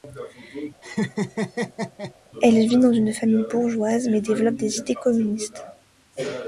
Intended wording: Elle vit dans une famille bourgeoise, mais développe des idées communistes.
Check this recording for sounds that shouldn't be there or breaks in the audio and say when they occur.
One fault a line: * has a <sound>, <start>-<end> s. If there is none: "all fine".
* has a laugh, 0.8-2.1 s